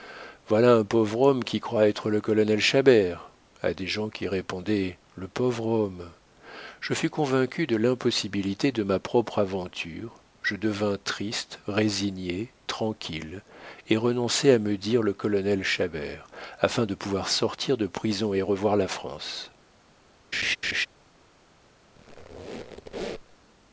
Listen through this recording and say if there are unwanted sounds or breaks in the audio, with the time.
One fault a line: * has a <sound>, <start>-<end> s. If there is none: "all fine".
* has a laugh, 20.3-20.9 s
* has a squeak, 21.9-23.4 s